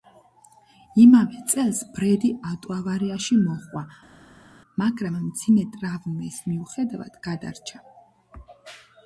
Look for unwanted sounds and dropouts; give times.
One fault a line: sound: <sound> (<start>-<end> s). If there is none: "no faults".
no faults